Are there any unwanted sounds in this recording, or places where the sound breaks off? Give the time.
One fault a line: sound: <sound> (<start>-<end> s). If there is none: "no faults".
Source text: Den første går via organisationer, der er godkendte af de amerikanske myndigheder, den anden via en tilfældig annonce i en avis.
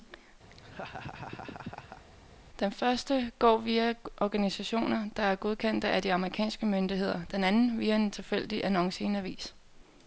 sound: laugh (0.5-2.0 s)